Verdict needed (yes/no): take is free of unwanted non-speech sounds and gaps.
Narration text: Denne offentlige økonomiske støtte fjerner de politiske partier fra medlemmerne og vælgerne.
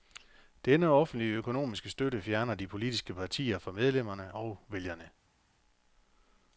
yes